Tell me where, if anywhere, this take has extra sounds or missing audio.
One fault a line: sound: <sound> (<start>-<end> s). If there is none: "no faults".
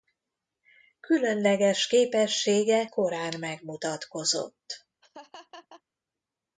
sound: laugh (5.0-5.8 s)